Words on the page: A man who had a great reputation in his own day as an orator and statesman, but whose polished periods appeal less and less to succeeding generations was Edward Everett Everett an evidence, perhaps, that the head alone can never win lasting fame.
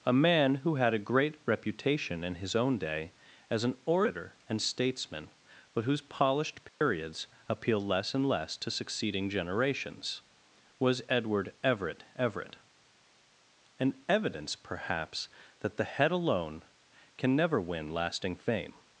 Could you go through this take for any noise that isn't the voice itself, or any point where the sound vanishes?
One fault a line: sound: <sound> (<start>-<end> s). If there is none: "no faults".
sound: dropout (6.7-6.8 s)